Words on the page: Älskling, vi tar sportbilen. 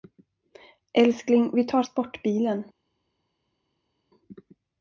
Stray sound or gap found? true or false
false